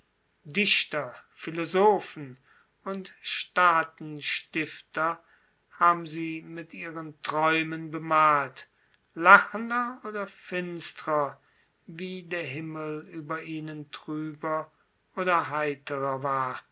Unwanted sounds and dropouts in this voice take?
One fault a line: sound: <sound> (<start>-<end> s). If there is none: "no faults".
no faults